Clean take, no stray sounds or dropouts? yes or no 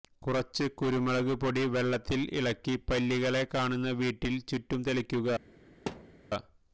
no